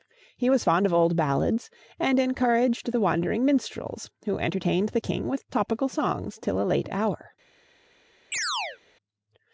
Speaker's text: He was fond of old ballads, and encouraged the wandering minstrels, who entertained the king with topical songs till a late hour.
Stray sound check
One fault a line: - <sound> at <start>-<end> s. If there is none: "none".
- chirp at 8.3-8.8 s